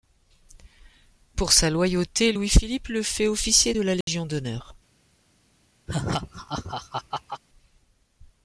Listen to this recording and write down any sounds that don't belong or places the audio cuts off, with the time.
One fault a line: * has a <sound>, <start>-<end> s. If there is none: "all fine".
* has a dropout, 4.0-4.1 s
* has a laugh, 5.9-7.4 s